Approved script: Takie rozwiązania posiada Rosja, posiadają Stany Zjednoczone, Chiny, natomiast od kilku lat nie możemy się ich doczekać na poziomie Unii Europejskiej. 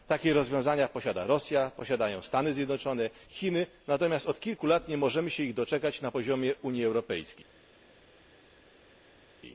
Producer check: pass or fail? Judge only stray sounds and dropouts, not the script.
pass